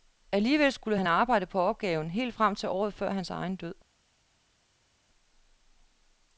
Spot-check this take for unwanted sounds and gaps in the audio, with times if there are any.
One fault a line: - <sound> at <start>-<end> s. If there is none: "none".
none